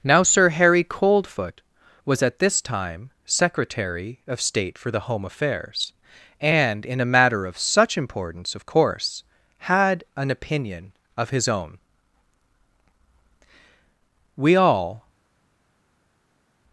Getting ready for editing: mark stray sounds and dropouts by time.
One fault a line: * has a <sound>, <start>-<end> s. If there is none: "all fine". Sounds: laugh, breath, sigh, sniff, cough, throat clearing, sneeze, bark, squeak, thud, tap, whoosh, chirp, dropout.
all fine